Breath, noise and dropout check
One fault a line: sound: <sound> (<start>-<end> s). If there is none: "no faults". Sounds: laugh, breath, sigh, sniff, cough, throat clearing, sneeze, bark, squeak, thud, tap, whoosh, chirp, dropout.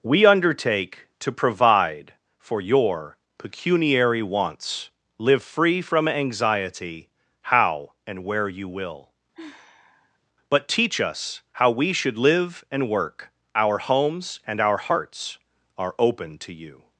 sound: sigh (9.3-10.2 s)